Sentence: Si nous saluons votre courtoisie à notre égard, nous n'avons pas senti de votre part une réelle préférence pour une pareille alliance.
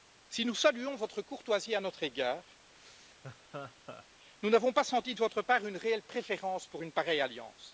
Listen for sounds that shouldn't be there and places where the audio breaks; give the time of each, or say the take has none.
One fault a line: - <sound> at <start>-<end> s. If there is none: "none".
- laugh at 2.7-4.1 s